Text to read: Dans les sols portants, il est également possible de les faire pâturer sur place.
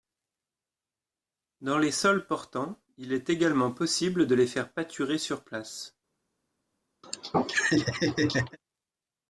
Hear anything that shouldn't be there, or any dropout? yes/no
yes